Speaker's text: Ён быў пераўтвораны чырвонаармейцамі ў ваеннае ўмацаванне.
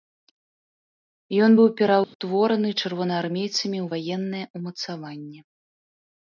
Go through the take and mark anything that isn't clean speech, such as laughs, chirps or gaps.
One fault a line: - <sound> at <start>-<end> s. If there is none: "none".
- dropout at 2.0-2.1 s